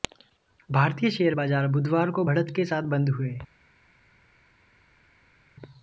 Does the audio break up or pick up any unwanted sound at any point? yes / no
no